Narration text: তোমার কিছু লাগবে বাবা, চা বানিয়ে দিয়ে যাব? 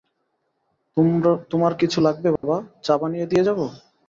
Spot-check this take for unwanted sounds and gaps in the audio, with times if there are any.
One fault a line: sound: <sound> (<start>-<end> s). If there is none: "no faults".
sound: dropout (2.4-2.4 s)